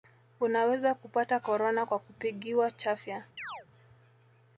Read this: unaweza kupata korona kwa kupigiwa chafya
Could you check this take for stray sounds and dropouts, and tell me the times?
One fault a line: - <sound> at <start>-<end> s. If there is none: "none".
- chirp at 3.4-3.7 s